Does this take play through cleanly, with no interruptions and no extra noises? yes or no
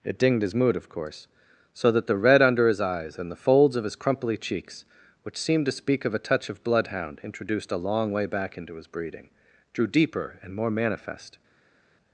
yes